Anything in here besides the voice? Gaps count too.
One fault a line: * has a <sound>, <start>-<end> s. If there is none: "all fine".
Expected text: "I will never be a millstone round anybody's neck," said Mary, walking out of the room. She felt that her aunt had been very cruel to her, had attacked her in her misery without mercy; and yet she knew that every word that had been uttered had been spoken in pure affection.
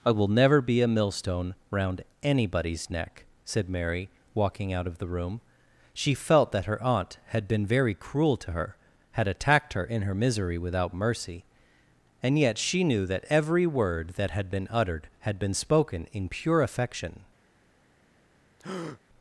* has a breath, 18.6-19.0 s